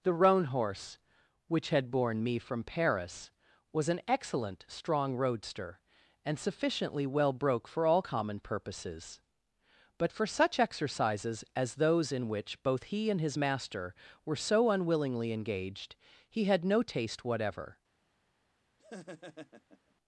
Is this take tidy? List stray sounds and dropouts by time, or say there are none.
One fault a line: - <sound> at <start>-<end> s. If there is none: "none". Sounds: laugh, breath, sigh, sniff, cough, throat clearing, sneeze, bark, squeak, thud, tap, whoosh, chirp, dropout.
- laugh at 18.8-19.9 s